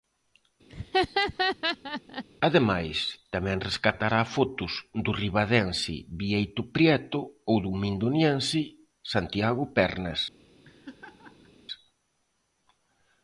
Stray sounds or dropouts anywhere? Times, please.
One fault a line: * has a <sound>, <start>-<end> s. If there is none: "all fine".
* has a laugh, 0.7-2.2 s
* has a laugh, 10.6-11.5 s